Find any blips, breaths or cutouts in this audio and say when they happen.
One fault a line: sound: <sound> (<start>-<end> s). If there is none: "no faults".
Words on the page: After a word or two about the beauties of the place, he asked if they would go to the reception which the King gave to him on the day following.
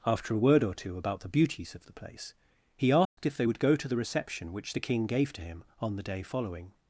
sound: dropout (3.0-3.2 s)